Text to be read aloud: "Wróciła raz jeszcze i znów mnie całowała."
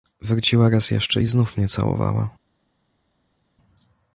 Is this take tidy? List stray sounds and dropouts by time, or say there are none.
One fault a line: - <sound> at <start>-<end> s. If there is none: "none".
none